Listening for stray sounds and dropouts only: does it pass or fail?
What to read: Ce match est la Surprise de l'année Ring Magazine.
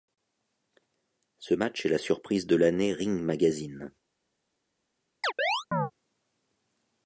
fail